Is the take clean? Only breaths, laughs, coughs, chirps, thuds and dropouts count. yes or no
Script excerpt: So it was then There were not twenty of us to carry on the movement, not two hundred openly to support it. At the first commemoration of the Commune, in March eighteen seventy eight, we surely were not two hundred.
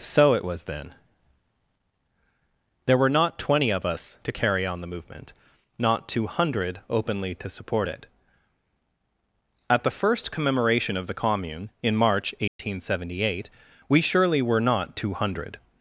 no